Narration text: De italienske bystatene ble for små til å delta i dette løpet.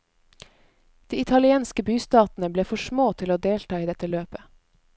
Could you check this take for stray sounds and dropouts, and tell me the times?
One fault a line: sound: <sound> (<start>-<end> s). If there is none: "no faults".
no faults